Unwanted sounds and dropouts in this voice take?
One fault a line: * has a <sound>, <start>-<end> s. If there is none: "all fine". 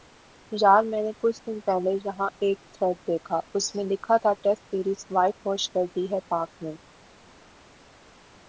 all fine